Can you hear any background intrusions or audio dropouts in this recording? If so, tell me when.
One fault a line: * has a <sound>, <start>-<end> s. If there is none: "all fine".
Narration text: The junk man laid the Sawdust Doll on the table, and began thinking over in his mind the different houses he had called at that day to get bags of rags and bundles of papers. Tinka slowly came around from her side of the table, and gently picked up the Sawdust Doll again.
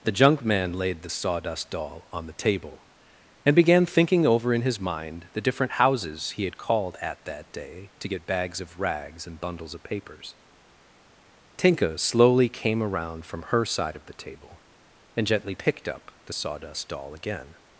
all fine